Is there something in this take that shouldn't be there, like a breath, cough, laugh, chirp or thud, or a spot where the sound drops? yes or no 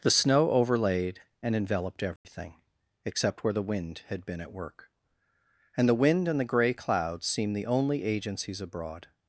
yes